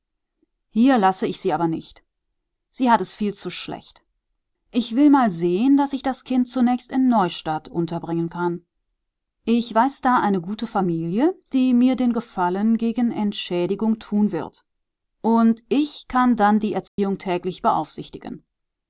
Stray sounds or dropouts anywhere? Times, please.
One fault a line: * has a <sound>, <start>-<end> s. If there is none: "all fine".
* has a dropout, 16.9-17.0 s